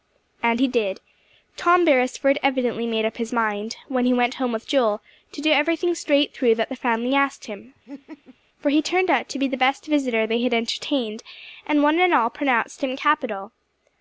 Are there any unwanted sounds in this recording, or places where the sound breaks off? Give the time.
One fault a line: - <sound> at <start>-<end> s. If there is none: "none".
- laugh at 7.9-8.4 s